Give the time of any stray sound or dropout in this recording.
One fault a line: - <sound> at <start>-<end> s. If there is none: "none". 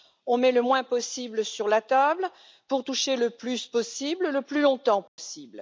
- dropout at 5.1-5.2 s